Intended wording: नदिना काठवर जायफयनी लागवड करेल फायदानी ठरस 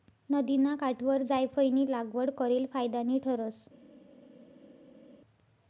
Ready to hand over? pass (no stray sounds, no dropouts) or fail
pass